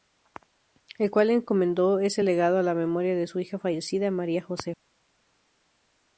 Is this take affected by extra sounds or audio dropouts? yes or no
no